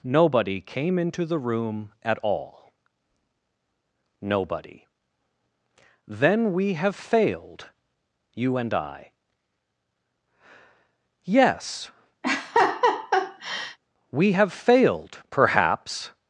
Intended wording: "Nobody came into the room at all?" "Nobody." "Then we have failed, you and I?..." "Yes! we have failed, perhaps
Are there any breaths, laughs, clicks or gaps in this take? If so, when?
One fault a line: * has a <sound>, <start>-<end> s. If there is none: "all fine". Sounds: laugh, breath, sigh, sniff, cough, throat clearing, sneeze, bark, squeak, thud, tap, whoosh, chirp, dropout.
* has a laugh, 12.2-13.8 s